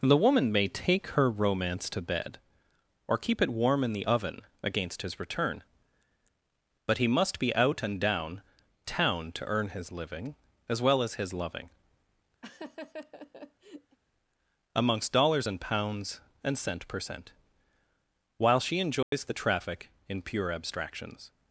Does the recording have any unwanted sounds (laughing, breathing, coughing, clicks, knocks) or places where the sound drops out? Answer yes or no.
yes